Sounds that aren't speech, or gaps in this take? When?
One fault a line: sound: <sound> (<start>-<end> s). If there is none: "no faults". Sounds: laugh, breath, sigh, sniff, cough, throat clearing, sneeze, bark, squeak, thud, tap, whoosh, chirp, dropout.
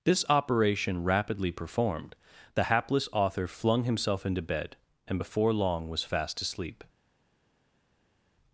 no faults